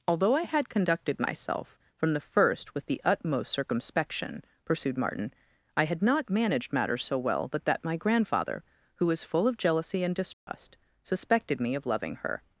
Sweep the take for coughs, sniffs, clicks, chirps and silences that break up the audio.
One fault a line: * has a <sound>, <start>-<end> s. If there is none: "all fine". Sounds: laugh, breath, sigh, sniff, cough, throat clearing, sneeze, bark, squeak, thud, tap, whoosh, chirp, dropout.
* has a dropout, 10.3-10.5 s